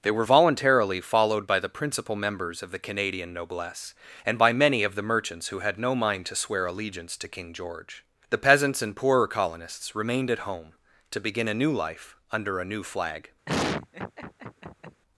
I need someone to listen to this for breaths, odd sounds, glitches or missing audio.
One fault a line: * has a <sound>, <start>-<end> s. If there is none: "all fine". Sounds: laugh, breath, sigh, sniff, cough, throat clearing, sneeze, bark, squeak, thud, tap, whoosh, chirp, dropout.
* has a laugh, 13.5-15.0 s